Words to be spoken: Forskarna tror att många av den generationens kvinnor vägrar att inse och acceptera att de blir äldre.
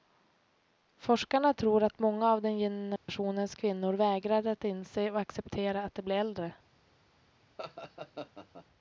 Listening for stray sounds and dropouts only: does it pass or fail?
fail